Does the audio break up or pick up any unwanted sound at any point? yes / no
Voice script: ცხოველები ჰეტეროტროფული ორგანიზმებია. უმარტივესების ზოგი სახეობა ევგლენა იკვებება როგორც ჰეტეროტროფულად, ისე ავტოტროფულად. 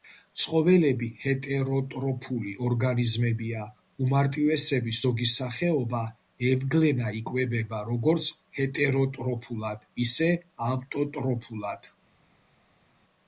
no